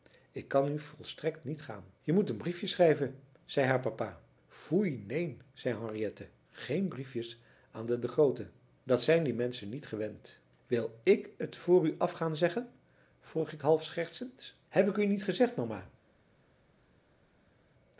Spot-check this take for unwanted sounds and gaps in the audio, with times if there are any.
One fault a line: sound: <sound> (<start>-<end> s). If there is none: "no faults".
no faults